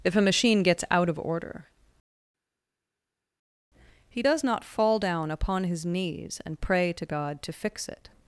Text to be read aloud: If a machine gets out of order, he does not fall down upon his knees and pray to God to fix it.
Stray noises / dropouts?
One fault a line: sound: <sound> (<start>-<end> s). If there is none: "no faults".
no faults